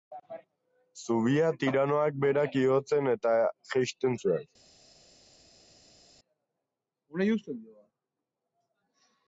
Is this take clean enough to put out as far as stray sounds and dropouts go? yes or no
yes